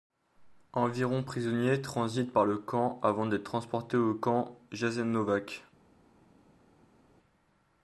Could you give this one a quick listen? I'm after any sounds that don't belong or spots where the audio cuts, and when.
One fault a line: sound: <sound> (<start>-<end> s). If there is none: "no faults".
no faults